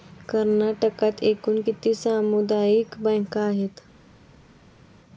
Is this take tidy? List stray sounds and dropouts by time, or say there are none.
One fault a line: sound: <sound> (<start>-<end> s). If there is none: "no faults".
no faults